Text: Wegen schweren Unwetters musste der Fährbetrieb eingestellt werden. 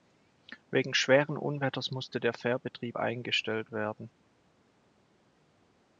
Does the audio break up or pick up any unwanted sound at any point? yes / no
no